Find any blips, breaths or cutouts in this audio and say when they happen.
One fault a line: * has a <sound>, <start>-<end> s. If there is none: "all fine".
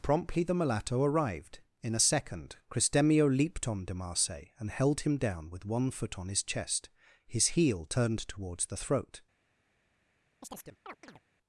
* has a chirp, 10.4-11.2 s